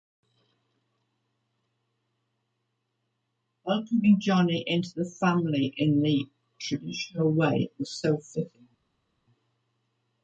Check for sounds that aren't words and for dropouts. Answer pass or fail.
pass